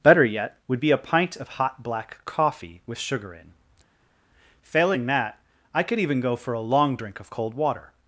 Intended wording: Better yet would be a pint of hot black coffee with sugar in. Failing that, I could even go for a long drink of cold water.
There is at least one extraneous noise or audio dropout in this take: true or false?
false